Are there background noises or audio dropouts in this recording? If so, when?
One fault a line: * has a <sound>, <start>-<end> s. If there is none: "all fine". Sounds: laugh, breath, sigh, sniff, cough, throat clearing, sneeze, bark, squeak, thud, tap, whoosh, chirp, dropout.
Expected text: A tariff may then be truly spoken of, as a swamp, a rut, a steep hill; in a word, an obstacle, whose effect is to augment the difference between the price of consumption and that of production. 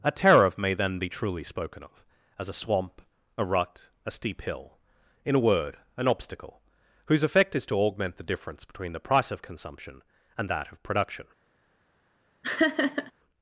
* has a laugh, 12.4-13.1 s